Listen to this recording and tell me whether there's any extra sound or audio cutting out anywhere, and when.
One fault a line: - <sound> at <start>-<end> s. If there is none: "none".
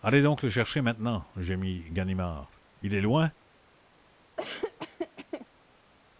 - laugh at 4.4-5.5 s